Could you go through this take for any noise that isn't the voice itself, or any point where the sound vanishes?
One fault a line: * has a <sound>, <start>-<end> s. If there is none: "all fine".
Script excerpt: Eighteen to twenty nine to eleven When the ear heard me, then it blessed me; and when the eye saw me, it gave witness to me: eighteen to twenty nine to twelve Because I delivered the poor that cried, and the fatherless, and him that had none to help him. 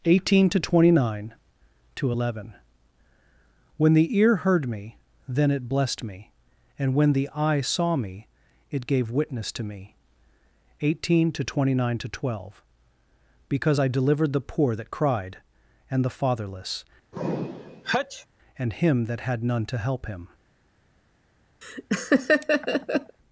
* has a sneeze, 17.1-18.3 s
* has a laugh, 21.6-23.2 s